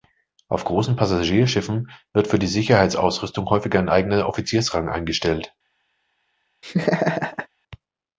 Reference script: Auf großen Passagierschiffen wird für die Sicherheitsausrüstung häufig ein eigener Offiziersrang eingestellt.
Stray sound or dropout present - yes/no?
yes